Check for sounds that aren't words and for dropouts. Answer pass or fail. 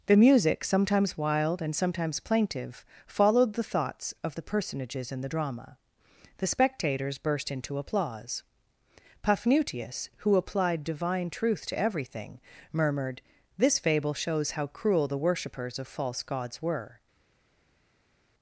pass